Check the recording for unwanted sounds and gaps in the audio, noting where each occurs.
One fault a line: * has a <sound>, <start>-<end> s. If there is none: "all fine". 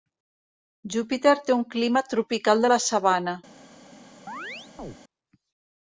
* has a chirp, 4.3-5.0 s